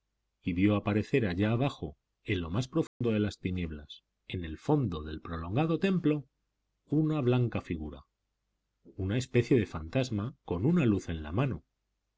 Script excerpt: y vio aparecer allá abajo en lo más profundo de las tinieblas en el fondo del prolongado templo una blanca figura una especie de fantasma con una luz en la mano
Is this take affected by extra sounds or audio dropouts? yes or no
yes